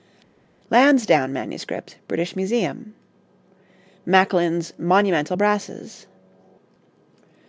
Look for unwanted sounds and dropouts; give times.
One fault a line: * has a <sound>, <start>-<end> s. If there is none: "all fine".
all fine